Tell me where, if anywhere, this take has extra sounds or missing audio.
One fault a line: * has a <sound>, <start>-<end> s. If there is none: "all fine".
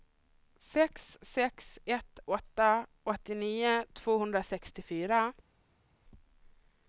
all fine